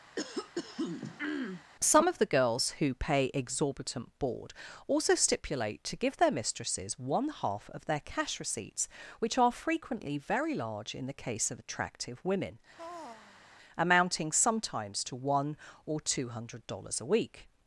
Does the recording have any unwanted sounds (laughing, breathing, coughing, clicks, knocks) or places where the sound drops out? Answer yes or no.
yes